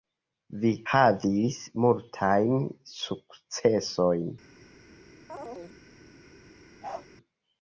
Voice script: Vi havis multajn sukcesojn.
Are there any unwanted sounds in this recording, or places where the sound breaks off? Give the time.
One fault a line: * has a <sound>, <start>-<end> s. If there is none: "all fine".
* has a chirp, 5.3-5.8 s
* has a bark, 6.8-7.1 s